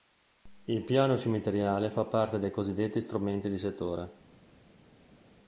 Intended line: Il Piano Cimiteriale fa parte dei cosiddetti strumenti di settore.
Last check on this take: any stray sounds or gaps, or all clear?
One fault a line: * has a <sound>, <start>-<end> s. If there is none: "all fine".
all fine